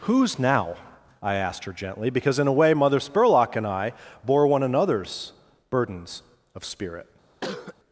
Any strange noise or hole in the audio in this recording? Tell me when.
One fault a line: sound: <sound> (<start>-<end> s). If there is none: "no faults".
sound: cough (7.4-7.8 s)